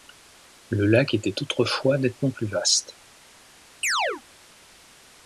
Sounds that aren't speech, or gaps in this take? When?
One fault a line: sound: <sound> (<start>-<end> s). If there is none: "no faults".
sound: chirp (3.8-4.2 s)